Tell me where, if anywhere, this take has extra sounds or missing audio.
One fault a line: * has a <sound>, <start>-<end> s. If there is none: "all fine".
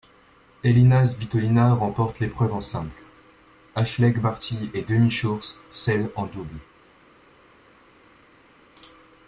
all fine